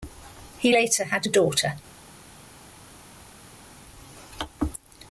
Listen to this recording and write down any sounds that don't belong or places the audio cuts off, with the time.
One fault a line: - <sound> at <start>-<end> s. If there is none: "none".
none